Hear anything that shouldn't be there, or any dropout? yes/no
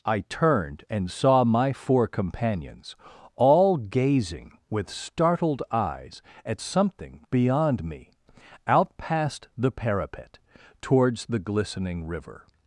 no